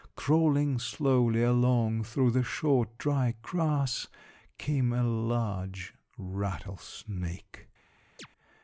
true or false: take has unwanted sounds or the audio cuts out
true